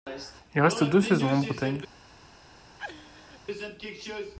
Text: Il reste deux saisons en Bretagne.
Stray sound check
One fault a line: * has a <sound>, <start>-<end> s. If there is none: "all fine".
* has a laugh, 2.8-3.4 s